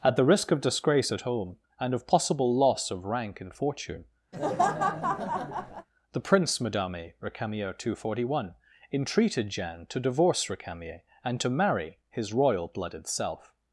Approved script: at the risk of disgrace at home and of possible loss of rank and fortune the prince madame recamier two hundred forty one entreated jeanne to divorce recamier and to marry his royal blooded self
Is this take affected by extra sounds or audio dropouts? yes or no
yes